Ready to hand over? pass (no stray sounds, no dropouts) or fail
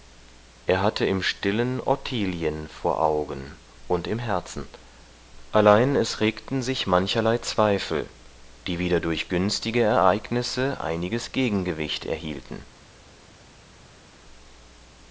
pass